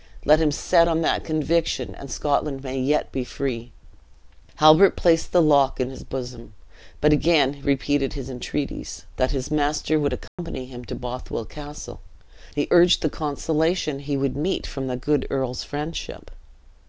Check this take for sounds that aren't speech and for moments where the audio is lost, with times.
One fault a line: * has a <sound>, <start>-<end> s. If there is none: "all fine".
* has a dropout, 10.3-10.4 s